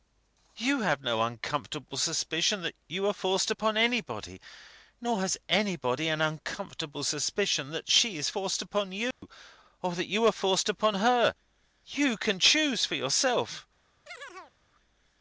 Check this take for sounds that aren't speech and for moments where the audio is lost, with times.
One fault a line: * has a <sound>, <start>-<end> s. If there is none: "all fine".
* has a dropout, 9.1-9.2 s
* has a chirp, 14.1-14.6 s